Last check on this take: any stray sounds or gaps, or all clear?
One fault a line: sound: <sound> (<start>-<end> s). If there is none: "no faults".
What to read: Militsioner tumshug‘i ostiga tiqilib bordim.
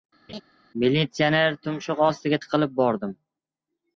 sound: laugh (0.3-0.4 s)